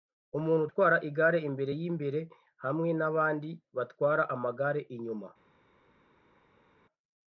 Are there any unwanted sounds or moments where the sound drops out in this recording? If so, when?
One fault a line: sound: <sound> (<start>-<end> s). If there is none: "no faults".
no faults